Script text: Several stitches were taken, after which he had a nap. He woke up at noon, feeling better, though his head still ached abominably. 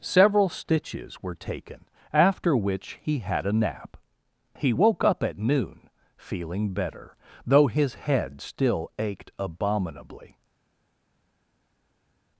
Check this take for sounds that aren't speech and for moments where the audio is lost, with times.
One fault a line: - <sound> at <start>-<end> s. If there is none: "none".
none